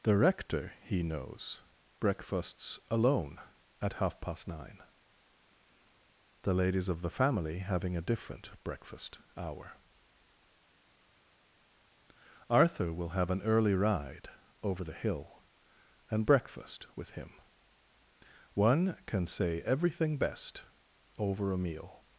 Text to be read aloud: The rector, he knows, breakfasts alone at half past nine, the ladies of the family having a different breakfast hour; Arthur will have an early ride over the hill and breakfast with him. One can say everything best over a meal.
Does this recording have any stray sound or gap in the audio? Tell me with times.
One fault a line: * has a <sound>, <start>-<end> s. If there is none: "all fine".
all fine